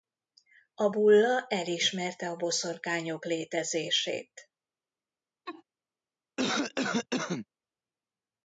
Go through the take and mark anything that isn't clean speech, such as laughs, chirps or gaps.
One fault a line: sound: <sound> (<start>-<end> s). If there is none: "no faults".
sound: laugh (5.5-5.6 s)
sound: cough (6.4-7.5 s)